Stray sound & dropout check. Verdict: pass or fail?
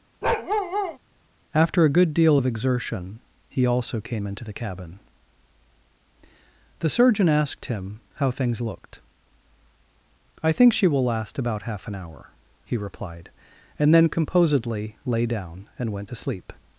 fail